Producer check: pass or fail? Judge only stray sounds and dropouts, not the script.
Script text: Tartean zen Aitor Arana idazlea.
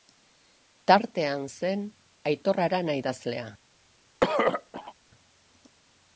fail